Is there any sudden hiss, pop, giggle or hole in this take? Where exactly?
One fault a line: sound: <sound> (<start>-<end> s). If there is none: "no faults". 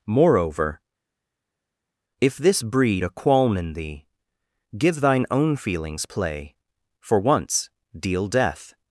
no faults